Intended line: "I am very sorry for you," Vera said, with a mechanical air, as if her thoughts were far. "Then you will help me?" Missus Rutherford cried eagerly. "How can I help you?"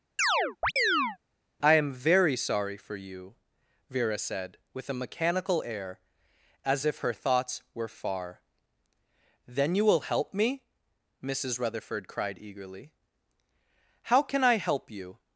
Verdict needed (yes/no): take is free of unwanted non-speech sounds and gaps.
no